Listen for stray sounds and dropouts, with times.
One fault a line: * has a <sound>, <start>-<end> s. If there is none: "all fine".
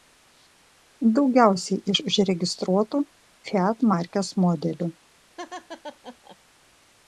* has a laugh, 5.4-6.4 s